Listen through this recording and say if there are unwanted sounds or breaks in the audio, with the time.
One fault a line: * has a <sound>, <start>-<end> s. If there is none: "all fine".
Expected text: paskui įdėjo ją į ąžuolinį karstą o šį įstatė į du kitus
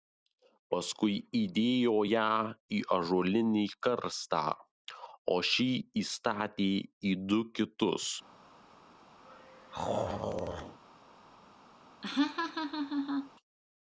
* has a throat clearing, 9.2-10.8 s
* has a laugh, 12.0-13.3 s